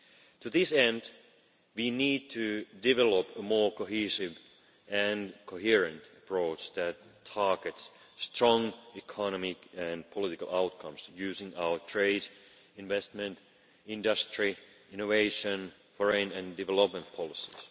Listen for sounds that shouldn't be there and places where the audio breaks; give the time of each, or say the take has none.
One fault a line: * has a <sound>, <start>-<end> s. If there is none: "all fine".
all fine